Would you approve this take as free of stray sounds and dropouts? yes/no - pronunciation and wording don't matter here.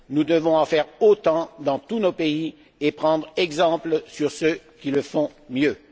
yes